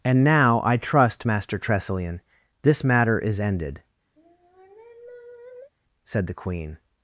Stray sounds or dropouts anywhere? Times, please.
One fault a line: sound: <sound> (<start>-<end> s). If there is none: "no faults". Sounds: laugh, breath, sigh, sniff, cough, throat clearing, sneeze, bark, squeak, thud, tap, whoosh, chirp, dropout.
sound: sigh (4.2-5.7 s)